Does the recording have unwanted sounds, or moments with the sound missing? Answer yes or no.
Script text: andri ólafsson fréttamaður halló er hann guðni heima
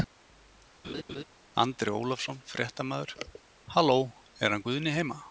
yes